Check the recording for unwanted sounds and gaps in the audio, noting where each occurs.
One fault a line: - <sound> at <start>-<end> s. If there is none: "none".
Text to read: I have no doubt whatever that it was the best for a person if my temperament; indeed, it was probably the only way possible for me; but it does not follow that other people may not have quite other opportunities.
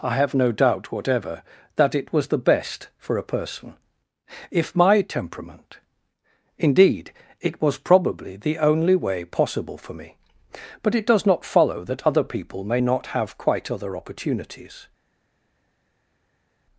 none